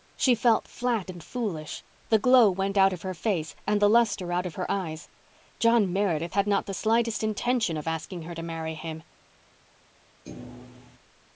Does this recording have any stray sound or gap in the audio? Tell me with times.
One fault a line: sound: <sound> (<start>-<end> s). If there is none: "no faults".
sound: thud (10.3-11.0 s)